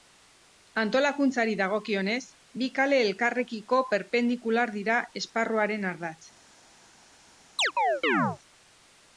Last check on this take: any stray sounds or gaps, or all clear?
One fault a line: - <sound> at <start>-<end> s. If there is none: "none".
- chirp at 7.6-8.4 s